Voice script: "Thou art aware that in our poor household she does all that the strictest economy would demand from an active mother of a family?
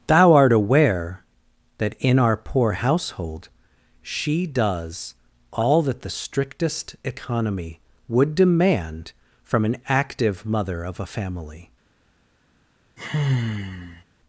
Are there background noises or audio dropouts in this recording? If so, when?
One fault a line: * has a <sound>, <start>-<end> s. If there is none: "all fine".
* has a sigh, 13.0-14.0 s